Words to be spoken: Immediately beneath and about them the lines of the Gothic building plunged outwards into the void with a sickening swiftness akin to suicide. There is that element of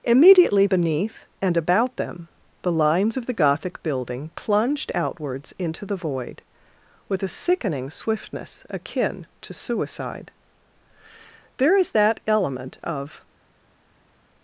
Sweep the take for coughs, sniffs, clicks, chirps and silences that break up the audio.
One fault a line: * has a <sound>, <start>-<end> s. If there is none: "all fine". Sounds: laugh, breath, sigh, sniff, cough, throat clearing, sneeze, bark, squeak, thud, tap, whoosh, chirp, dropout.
all fine